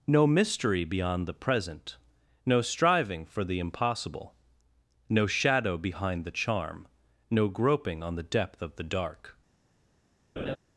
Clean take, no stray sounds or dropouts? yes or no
no